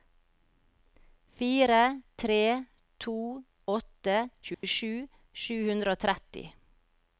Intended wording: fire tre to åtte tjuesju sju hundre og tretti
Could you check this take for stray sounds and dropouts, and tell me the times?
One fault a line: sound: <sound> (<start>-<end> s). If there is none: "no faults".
sound: dropout (4.5-4.6 s)